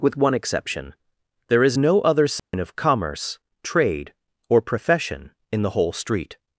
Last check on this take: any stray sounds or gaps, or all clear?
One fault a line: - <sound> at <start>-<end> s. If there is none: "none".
- dropout at 2.4-2.5 s